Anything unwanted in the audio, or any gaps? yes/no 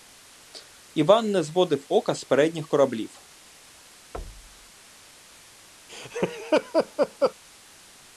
yes